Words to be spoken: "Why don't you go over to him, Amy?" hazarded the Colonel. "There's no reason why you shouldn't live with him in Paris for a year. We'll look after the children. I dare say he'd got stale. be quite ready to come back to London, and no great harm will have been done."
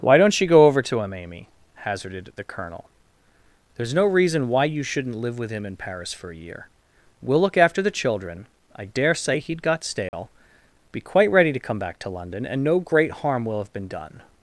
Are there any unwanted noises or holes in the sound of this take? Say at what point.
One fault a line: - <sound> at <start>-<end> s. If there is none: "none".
- dropout at 10.1-10.1 s